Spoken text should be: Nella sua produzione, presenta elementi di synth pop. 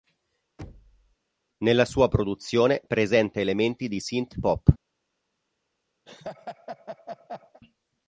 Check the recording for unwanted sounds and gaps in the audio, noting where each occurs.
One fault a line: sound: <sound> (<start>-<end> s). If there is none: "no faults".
sound: thud (0.6-1.2 s)
sound: laugh (6.1-7.6 s)